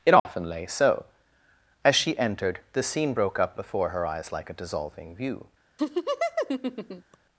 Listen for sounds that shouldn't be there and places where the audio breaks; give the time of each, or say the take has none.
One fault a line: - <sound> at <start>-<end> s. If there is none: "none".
- dropout at 0.2-0.2 s
- laugh at 5.8-7.2 s